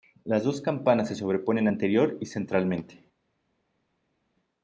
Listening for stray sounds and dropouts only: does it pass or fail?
pass